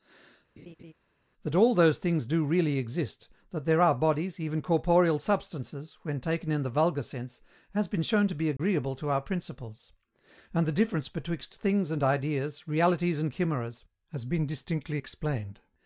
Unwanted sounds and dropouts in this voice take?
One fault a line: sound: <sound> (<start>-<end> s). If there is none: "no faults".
sound: laugh (0.6-0.9 s)
sound: dropout (8.6-8.6 s)